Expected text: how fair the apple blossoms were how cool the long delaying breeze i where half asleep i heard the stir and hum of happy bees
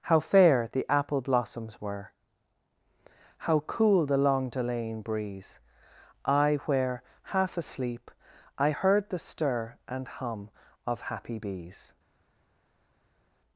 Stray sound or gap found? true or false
false